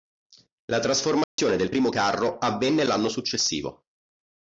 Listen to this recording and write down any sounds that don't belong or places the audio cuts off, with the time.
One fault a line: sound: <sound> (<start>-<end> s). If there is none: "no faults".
sound: dropout (1.2-1.4 s)